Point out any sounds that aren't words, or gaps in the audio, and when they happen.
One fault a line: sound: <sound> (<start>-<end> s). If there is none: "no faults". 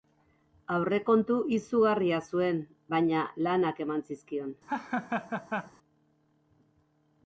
sound: laugh (4.7-5.7 s)